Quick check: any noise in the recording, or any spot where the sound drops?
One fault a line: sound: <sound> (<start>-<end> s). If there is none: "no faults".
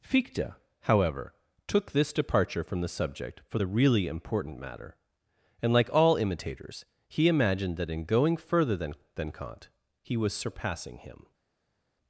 no faults